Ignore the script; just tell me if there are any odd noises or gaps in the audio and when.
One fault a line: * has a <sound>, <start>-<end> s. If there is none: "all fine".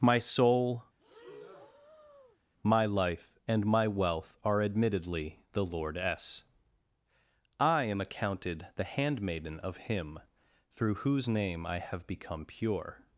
* has a breath, 1.0-2.4 s